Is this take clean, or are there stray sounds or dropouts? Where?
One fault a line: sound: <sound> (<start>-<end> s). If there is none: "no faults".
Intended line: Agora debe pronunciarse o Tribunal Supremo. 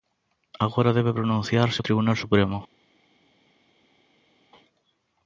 no faults